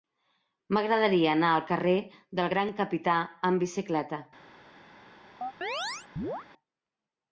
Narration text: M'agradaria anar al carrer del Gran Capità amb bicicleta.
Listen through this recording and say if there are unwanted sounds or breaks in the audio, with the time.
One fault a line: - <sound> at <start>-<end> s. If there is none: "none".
- chirp at 5.4-6.5 s